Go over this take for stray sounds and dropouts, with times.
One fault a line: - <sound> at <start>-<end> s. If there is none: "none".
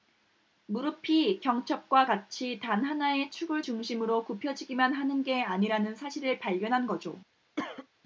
- cough at 7.6-7.9 s